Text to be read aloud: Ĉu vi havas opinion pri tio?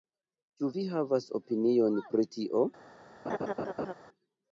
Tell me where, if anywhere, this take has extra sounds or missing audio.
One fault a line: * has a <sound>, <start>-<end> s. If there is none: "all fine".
* has a laugh, 3.3-3.9 s